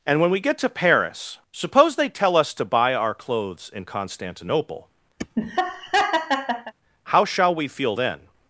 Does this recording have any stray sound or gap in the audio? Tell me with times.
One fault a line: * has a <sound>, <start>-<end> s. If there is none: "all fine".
* has a laugh, 5.2-6.7 s